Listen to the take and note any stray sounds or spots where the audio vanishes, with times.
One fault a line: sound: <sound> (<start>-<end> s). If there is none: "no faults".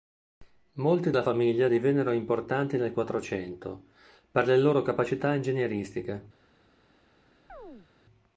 sound: chirp (7.5-7.9 s)